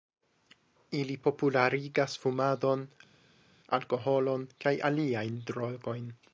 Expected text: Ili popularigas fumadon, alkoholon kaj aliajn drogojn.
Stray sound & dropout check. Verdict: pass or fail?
pass